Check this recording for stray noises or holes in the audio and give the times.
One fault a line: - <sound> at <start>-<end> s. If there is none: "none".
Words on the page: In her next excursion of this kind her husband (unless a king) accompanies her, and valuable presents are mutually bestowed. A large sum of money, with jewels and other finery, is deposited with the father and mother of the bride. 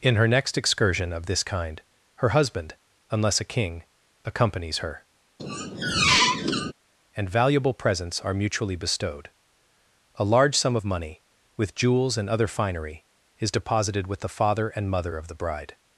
- squeak at 5.4-6.7 s